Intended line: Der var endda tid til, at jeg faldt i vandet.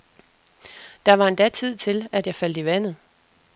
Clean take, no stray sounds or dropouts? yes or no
yes